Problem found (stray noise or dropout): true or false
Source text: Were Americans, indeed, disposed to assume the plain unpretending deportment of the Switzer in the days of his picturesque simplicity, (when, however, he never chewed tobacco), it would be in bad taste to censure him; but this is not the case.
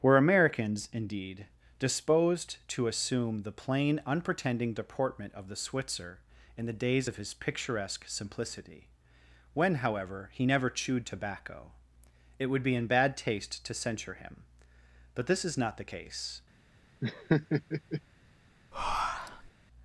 true